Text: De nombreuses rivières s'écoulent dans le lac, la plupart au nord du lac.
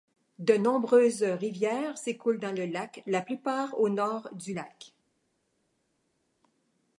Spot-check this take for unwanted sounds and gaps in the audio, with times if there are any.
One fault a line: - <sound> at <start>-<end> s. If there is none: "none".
none